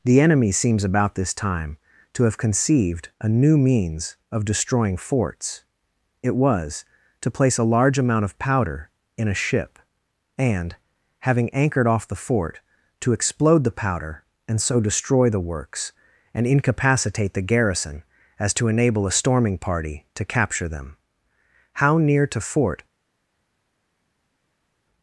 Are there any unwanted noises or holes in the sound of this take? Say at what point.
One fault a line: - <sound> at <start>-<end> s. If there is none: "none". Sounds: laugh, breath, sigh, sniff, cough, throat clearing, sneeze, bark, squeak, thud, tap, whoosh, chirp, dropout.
none